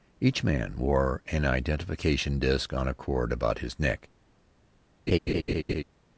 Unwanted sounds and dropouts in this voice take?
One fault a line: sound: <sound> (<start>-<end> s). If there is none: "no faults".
sound: laugh (5.1-5.8 s)